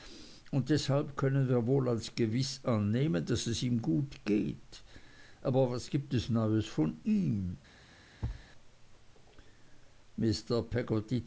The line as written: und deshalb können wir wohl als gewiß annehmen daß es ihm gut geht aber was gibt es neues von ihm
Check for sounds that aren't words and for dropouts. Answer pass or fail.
fail